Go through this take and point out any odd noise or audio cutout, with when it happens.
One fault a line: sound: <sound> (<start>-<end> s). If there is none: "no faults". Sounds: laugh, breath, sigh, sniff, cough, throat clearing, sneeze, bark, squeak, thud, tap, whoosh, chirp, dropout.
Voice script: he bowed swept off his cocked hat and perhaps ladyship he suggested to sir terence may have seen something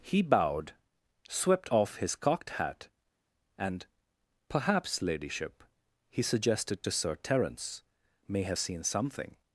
no faults